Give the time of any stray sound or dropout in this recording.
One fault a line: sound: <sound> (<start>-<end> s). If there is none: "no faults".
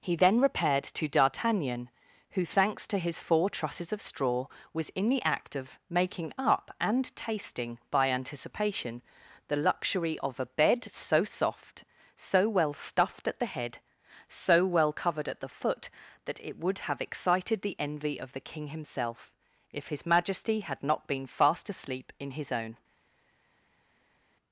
no faults